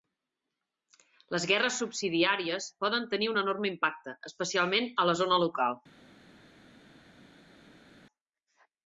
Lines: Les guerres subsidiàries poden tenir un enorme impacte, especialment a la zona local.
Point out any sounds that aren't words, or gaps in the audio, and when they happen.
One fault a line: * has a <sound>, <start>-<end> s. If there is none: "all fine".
all fine